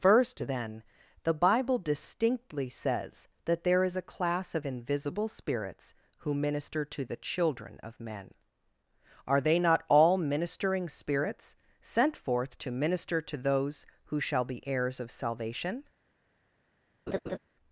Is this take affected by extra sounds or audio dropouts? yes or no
yes